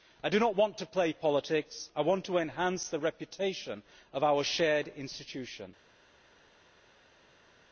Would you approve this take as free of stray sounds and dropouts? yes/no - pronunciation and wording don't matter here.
yes